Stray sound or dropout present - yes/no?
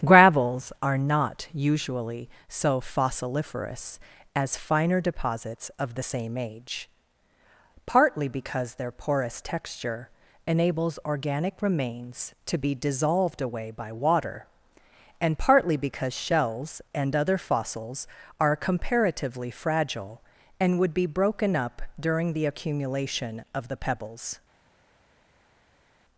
no